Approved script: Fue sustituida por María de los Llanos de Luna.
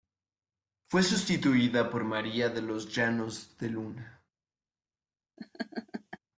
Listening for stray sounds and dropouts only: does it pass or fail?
fail